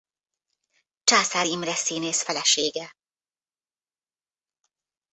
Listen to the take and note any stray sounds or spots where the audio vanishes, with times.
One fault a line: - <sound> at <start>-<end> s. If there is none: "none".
none